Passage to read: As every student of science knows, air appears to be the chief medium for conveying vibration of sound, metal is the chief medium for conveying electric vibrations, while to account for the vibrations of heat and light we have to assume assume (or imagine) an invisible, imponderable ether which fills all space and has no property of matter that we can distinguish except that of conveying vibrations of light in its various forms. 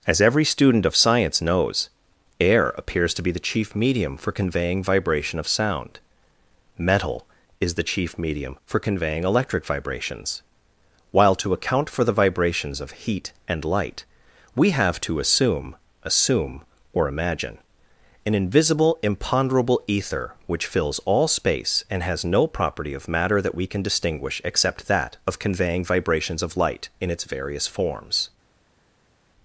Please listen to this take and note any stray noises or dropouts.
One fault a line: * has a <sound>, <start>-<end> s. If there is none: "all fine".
all fine